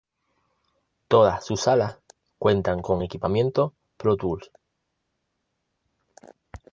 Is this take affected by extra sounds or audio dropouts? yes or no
no